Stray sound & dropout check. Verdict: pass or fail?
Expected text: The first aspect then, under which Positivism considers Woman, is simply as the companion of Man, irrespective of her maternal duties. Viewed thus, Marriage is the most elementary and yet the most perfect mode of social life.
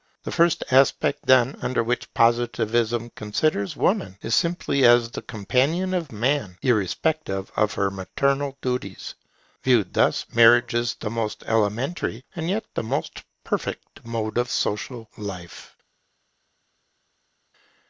pass